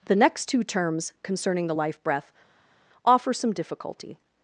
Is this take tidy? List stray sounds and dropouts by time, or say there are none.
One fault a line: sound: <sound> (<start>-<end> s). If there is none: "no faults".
no faults